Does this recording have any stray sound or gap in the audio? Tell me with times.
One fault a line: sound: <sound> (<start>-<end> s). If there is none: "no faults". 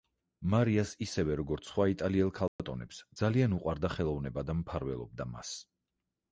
sound: dropout (2.5-2.6 s)